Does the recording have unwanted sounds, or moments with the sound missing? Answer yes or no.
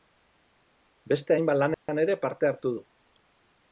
yes